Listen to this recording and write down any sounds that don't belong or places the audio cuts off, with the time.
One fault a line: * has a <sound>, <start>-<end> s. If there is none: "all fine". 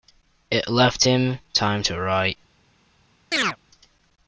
* has a chirp, 3.3-3.6 s